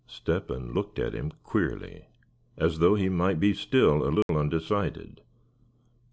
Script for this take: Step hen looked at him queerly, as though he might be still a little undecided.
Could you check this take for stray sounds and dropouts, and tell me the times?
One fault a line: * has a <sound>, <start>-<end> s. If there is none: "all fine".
* has a dropout, 4.2-4.3 s